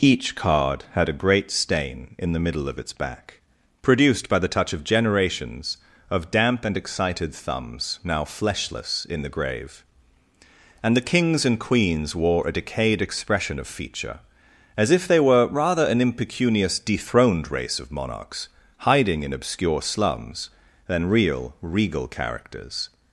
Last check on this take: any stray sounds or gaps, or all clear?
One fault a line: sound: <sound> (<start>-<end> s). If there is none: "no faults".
no faults